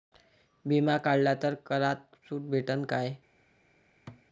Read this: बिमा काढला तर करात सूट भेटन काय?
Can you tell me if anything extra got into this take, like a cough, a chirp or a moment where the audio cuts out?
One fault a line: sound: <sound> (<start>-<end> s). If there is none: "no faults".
sound: thud (4.1-4.2 s)